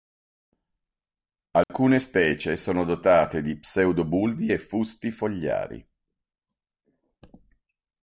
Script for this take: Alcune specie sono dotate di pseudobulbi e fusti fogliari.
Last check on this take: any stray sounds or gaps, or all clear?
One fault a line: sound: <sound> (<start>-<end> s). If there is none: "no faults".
sound: dropout (1.6-1.7 s)